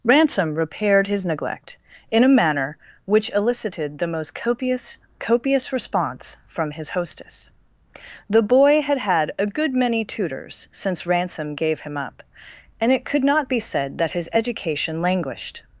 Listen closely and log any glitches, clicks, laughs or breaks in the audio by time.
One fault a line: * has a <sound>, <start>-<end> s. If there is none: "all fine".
all fine